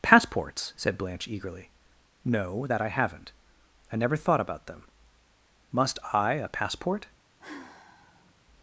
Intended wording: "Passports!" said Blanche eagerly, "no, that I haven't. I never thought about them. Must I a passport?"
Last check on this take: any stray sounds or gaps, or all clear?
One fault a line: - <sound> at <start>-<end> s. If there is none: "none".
- sigh at 7.4-8.3 s